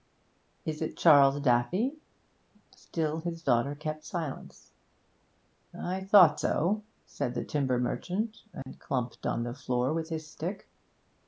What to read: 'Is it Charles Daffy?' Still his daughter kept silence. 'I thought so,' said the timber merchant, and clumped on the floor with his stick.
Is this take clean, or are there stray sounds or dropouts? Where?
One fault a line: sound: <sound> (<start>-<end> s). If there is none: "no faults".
sound: dropout (8.6-8.7 s)